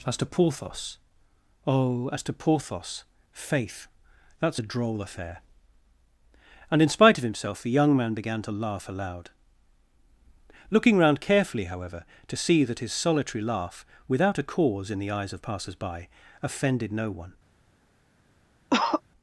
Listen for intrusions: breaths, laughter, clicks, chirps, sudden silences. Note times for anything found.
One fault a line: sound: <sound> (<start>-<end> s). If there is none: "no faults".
sound: cough (18.7-19.0 s)